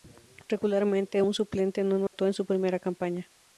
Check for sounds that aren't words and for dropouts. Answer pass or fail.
fail